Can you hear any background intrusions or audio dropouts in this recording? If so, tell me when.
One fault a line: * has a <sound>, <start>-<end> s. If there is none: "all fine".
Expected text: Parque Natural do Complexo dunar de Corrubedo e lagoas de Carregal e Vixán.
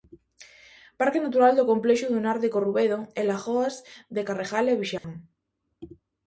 * has a dropout, 5.0-5.0 s